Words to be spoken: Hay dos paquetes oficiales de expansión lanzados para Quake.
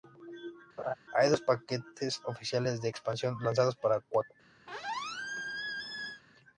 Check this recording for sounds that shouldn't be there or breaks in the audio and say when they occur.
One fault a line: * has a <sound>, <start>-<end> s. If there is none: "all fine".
* has a laugh, 0.8-0.9 s
* has a squeak, 4.7-6.2 s